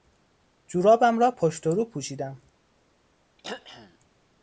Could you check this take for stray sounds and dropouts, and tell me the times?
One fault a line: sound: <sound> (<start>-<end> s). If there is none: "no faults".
sound: throat clearing (3.4-4.0 s)